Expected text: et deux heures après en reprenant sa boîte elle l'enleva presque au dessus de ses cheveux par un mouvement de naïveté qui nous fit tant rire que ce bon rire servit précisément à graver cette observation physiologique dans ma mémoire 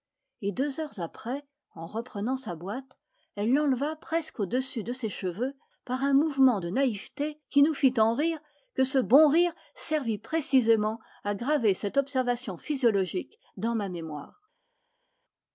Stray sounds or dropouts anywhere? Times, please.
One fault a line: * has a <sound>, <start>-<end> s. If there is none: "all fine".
all fine